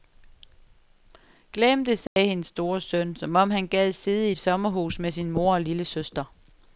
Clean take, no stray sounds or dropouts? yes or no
no